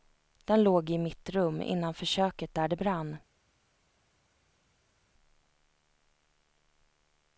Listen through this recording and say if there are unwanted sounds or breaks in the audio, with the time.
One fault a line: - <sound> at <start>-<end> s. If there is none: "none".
none